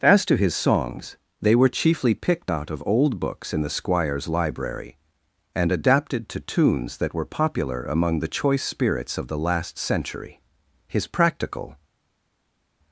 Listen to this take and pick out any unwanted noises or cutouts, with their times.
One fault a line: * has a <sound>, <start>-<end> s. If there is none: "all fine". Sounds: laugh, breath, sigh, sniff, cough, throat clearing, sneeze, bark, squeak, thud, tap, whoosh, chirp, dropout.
all fine